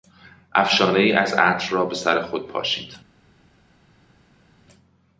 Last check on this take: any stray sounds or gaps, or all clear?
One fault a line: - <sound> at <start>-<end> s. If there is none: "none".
none